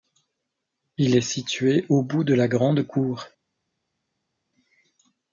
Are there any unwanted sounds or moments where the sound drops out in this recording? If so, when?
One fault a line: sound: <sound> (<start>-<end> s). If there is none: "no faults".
no faults